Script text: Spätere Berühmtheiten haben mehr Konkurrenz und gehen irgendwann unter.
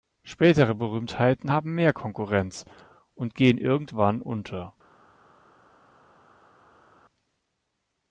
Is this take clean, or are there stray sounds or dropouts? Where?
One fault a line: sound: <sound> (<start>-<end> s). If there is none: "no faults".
no faults